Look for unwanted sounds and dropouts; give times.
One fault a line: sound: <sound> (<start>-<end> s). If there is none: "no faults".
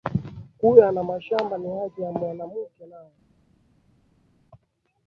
no faults